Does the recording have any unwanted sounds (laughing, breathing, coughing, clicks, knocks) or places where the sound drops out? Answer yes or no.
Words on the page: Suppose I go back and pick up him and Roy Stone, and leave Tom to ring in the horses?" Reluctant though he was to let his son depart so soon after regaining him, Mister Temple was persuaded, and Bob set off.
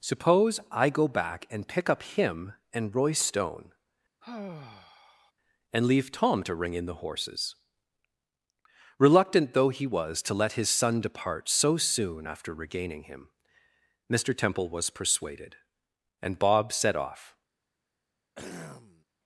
yes